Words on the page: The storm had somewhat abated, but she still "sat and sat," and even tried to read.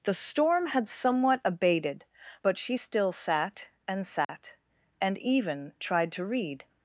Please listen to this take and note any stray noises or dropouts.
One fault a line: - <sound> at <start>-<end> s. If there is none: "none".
- dropout at 4.2-4.3 s